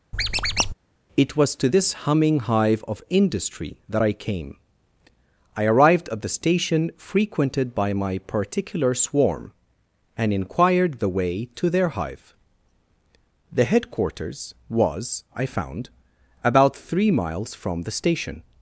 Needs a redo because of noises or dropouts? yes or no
yes